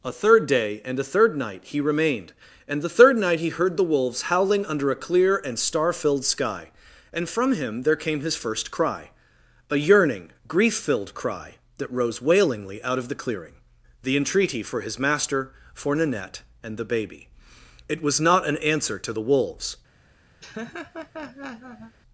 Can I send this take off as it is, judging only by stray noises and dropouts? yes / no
no